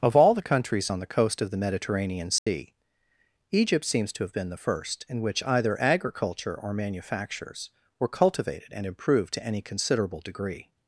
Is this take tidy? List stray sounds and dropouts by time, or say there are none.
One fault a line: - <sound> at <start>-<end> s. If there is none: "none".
- dropout at 2.4-2.5 s